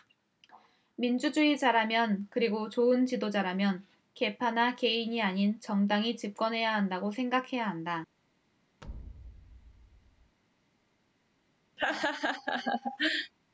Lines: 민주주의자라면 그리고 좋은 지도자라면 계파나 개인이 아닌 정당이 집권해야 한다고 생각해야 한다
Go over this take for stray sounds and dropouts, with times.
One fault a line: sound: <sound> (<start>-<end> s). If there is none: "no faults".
sound: thud (8.8-10.4 s)
sound: laugh (11.8-13.3 s)